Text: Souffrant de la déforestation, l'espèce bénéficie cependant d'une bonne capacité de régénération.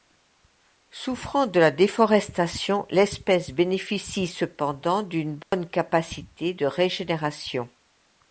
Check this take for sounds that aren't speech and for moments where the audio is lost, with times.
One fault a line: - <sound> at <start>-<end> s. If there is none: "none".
- dropout at 5.4-5.5 s